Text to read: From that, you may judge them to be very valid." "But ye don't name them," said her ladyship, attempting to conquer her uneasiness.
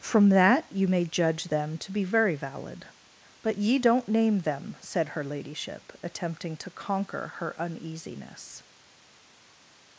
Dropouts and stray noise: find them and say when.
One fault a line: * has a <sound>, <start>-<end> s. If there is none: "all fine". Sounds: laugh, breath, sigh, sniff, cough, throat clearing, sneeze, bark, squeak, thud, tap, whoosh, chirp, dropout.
all fine